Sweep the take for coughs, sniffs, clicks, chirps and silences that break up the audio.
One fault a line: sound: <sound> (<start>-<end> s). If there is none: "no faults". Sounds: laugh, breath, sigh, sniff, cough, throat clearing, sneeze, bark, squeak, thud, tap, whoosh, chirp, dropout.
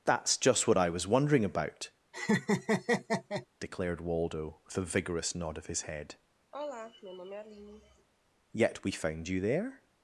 sound: laugh (2.1-3.5 s)
sound: sigh (6.5-8.1 s)